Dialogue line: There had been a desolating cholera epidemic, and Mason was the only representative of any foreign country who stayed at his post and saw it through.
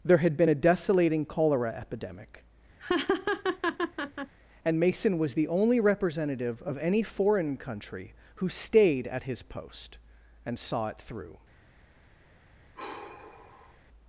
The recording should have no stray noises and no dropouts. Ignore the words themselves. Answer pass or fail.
fail